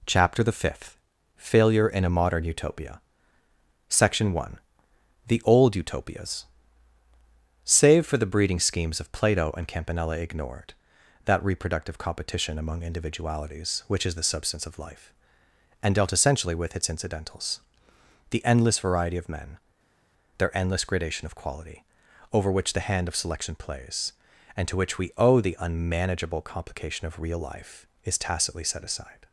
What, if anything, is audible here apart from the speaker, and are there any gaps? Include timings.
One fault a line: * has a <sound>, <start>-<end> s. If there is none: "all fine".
all fine